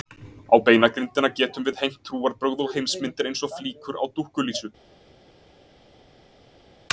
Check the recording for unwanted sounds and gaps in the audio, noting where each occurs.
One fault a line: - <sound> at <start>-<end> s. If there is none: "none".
none